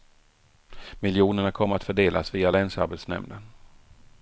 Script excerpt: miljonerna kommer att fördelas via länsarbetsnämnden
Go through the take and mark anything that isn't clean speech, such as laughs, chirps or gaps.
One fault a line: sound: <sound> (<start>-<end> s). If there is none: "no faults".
no faults